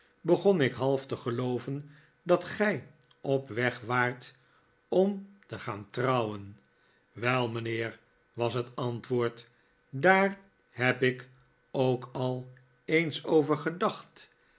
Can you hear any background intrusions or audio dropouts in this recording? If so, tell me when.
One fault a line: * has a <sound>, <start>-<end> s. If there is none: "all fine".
all fine